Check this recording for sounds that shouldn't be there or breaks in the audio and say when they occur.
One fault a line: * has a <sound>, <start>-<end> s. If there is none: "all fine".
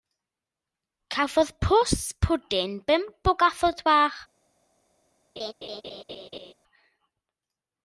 * has a laugh, 5.4-6.5 s